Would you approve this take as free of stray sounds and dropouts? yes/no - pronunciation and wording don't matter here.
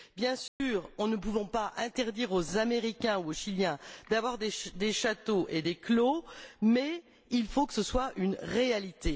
no